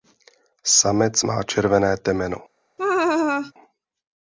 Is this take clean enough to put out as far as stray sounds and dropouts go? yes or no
no